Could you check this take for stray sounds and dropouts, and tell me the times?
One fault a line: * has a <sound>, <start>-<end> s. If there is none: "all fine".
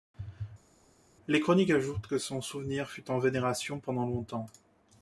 all fine